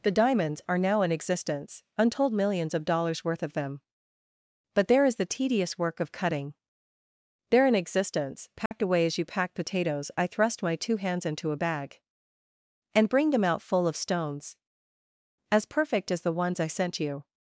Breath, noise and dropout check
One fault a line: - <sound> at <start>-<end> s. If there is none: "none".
- dropout at 8.7-8.7 s